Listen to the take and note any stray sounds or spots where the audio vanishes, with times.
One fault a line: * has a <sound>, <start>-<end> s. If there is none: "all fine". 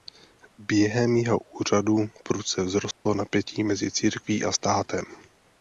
* has a dropout, 2.9-3.1 s